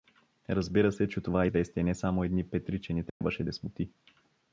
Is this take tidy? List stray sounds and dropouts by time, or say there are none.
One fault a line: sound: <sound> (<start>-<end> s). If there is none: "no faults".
sound: dropout (3.1-3.2 s)